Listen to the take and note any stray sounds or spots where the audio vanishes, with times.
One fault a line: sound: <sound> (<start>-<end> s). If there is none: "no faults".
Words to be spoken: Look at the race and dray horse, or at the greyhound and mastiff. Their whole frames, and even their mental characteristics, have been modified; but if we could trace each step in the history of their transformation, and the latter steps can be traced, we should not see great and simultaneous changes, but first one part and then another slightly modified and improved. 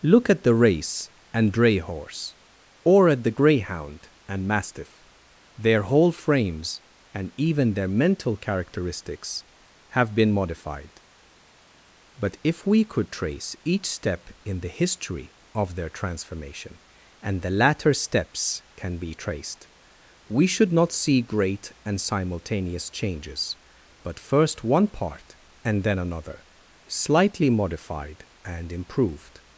no faults